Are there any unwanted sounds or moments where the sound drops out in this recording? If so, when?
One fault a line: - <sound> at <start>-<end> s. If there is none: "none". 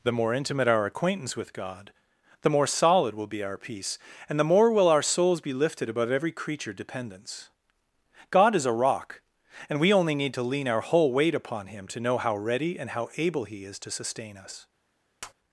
- tap at 15.2-15.3 s